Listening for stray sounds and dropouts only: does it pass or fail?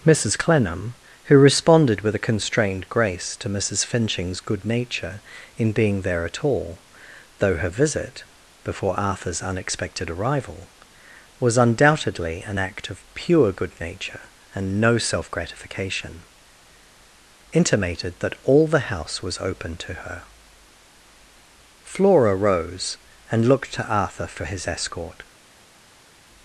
pass